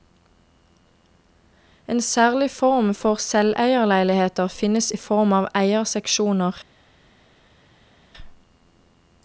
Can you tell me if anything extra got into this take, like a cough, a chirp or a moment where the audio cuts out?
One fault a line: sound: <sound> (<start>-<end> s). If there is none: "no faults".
no faults